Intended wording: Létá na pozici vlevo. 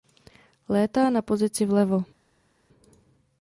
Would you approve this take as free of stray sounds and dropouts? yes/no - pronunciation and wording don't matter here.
yes